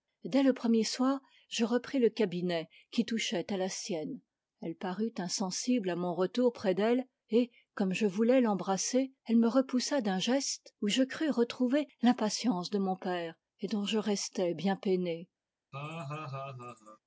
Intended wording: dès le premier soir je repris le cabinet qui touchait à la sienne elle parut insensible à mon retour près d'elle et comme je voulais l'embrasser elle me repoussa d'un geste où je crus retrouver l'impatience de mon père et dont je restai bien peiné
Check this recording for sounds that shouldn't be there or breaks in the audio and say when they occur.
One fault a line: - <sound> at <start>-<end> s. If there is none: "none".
- laugh at 15.7-17.0 s